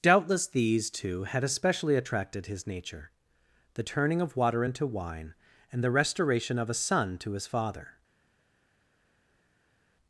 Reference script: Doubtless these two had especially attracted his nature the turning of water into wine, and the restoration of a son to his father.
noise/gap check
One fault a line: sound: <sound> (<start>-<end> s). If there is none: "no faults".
no faults